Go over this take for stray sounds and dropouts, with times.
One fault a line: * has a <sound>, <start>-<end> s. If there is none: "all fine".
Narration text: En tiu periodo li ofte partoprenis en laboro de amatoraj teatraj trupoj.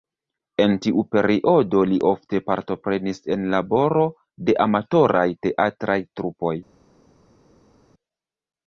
all fine